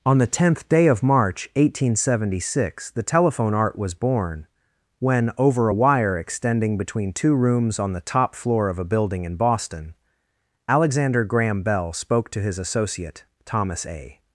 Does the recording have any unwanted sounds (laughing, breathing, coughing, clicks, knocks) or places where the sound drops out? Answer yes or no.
no